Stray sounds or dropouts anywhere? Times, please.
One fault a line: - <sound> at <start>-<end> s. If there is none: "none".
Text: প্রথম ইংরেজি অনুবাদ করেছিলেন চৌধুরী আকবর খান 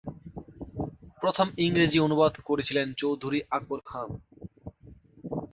none